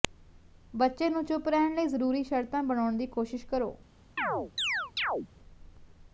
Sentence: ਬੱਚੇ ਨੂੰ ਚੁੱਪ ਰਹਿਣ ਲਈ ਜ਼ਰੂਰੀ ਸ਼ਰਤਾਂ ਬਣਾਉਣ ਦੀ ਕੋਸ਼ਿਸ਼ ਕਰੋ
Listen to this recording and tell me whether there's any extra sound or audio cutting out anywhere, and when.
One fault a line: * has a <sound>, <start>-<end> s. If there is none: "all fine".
* has a chirp, 4.2-5.3 s